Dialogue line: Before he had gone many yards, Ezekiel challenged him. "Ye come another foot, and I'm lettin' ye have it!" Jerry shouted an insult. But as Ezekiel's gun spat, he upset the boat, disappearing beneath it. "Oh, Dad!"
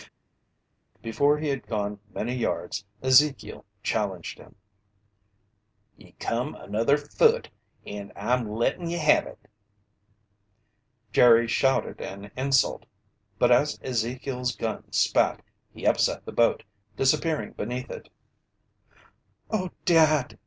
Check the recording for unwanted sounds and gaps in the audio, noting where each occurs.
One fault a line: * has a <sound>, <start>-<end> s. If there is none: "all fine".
all fine